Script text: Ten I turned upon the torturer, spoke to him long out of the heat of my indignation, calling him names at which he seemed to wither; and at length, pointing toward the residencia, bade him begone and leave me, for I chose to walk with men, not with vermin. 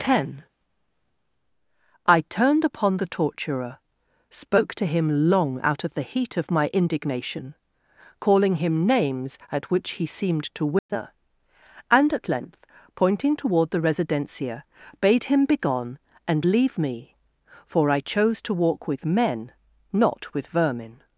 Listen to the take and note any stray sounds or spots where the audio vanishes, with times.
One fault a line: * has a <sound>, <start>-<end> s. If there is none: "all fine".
* has a dropout, 10.8-10.9 s